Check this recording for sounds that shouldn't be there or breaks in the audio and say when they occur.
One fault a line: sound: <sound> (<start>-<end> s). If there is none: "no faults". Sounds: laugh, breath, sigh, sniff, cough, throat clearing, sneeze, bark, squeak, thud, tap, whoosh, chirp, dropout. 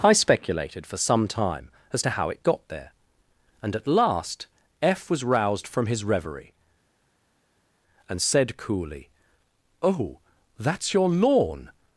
no faults